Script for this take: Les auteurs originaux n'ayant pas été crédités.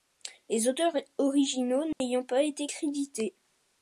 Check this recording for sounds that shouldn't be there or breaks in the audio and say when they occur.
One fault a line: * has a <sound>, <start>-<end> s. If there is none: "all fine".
* has a dropout, 1.9-2.0 s